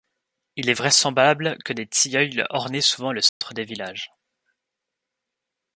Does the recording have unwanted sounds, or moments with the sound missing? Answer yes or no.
yes